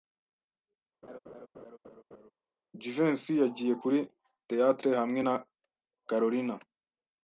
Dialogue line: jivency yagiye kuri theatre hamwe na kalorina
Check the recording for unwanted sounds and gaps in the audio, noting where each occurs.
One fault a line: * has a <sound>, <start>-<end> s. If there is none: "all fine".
* has a laugh, 1.0-2.3 s